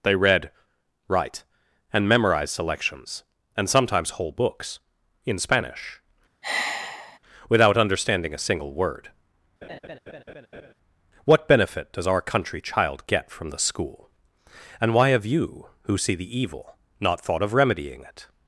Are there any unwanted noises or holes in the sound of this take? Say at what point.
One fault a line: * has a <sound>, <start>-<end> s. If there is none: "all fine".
* has a sigh, 6.4-7.2 s
* has a laugh, 9.6-10.7 s